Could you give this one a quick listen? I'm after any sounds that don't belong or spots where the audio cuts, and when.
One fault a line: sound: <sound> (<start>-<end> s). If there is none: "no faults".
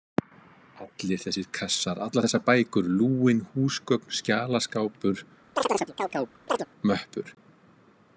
sound: chirp (5.6-6.7 s)